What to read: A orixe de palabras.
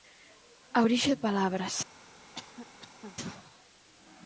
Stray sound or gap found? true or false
true